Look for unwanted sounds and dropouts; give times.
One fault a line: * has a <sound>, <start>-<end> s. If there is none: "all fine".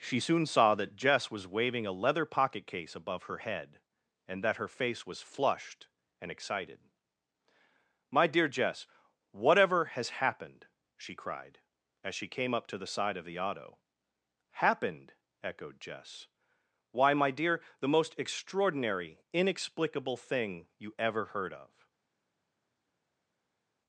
all fine